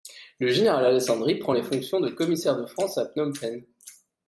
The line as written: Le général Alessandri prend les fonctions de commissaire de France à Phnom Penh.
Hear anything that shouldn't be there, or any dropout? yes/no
no